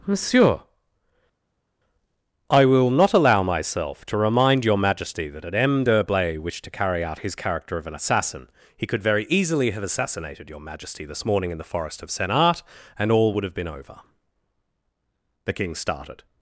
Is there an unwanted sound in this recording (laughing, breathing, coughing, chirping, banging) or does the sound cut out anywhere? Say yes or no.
no